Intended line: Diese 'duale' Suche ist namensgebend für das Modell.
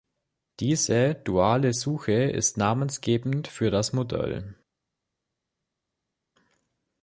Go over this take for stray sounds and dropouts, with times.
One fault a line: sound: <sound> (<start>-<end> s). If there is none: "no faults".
no faults